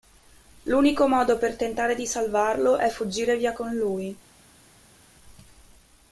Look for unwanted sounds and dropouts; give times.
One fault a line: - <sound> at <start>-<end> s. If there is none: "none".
none